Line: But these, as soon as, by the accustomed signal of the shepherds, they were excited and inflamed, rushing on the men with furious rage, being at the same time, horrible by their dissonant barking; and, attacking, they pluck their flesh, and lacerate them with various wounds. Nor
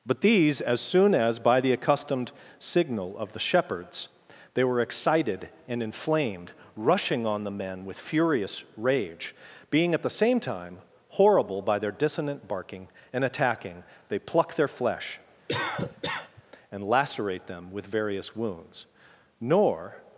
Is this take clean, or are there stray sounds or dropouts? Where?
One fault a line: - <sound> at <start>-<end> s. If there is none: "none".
- cough at 15.5-16.4 s